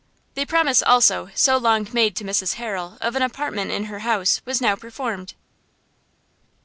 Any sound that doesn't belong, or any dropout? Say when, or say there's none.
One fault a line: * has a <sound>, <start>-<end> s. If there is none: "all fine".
all fine